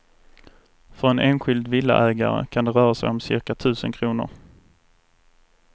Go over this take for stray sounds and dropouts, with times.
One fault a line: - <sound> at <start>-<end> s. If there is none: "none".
none